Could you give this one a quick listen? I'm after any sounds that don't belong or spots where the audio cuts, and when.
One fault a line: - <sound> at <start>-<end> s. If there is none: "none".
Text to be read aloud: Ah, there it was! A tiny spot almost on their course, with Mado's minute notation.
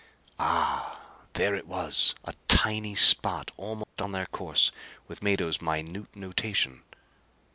- dropout at 3.8-4.0 s